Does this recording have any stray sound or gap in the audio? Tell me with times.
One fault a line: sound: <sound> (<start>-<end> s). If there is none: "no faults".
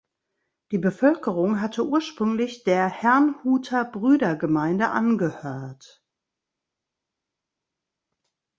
no faults